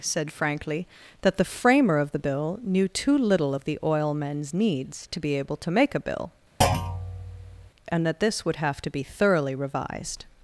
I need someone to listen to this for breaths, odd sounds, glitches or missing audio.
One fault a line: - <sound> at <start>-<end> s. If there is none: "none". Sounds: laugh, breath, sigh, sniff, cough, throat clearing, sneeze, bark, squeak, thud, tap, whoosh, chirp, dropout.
- thud at 6.6-7.7 s